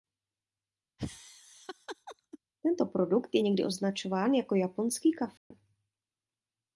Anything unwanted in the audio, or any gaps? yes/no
yes